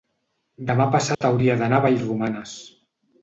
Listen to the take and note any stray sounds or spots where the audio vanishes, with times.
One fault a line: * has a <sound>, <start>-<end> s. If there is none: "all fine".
* has a dropout, 1.1-1.2 s